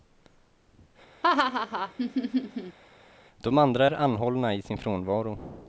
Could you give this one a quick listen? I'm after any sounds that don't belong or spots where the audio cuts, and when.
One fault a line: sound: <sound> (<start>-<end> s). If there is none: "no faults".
sound: laugh (1.2-2.8 s)